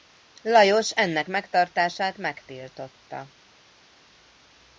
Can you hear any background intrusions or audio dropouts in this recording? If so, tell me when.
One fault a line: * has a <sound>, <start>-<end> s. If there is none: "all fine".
all fine